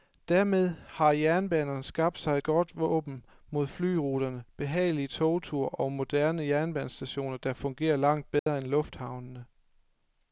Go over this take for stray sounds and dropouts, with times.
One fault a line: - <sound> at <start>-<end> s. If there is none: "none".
- dropout at 8.4-8.5 s